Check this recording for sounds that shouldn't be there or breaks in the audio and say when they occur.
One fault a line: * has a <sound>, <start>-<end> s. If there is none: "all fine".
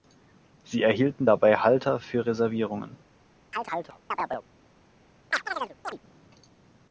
* has a chirp, 3.5-4.5 s
* has a chirp, 5.3-6.0 s